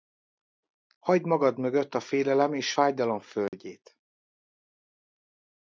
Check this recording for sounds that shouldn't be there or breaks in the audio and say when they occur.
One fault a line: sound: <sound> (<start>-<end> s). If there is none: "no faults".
sound: dropout (3.5-3.5 s)